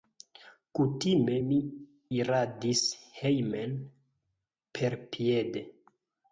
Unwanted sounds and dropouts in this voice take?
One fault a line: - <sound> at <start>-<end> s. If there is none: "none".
none